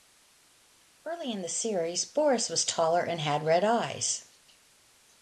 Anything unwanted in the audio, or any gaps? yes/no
no